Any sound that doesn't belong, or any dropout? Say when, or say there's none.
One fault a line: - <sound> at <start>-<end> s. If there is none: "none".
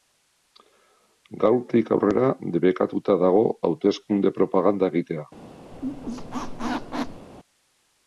- squeak at 5.7-7.3 s